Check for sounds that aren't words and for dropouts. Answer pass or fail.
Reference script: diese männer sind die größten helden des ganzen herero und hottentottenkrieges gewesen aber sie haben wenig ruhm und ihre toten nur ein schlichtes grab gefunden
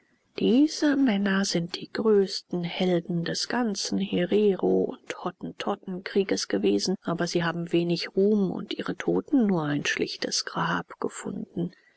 pass